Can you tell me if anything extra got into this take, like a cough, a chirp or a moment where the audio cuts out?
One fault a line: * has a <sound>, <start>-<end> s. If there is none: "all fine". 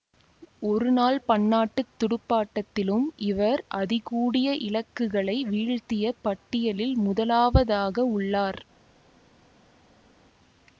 all fine